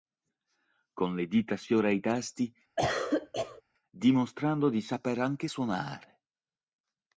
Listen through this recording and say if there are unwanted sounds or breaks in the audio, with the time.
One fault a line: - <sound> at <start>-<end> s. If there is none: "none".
- cough at 2.8-3.6 s